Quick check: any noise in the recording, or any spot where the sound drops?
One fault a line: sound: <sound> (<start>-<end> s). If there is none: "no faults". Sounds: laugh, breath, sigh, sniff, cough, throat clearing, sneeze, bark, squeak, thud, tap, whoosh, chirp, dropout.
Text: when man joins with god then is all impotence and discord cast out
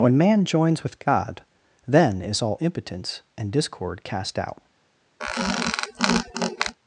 sound: squeak (5.2-6.7 s)